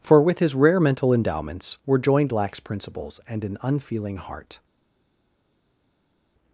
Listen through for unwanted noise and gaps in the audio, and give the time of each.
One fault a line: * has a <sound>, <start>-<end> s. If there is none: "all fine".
all fine